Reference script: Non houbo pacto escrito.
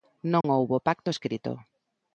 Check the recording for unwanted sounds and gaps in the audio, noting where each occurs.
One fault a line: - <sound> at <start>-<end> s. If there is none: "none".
- dropout at 0.4-0.4 s